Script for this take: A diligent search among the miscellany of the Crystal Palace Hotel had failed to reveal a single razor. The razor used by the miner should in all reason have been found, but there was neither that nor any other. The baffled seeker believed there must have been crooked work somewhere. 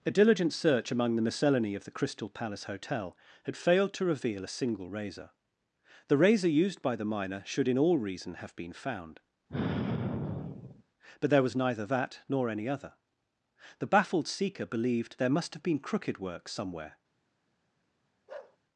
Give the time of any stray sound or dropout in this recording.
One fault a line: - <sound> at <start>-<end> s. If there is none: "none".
- sigh at 9.5-10.8 s
- bark at 18.3-18.6 s